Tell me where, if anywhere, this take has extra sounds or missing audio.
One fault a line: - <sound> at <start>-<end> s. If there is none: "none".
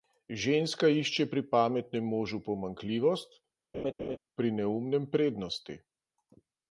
- laugh at 3.7-4.2 s